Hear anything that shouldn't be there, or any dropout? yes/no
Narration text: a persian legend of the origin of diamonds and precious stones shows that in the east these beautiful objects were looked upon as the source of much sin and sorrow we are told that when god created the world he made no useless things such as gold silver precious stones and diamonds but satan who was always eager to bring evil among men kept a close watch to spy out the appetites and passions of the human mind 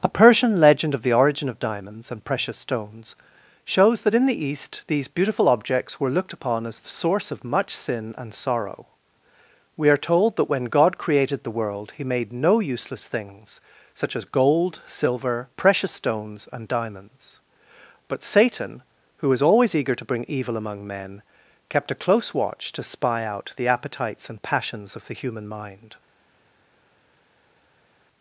no